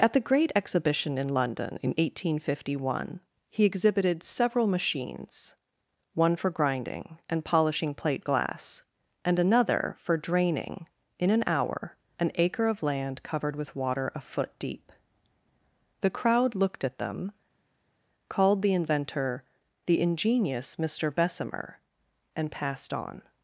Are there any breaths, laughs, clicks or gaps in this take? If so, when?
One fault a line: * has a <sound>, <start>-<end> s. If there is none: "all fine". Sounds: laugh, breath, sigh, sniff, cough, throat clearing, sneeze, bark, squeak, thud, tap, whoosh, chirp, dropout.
all fine